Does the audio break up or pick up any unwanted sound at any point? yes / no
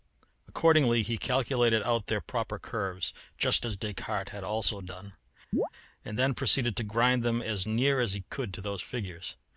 yes